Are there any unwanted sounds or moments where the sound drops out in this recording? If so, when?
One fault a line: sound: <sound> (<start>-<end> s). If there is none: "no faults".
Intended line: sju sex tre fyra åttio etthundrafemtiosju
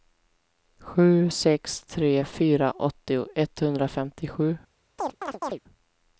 sound: chirp (5.0-5.6 s)